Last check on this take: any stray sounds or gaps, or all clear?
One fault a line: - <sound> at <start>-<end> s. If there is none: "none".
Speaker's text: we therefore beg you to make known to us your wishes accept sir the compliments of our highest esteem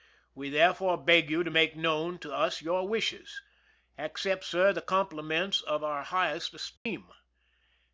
- dropout at 6.8-6.9 s